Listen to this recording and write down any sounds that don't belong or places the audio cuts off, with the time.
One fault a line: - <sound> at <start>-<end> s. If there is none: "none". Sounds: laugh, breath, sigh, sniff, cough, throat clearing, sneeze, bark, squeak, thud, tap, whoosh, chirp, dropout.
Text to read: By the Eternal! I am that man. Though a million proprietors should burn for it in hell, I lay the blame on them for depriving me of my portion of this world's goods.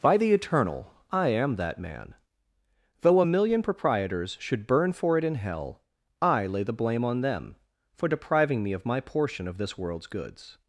none